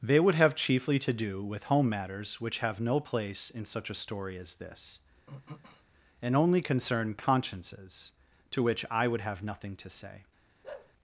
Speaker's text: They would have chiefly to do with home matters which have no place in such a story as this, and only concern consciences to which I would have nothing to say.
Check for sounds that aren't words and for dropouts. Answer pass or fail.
fail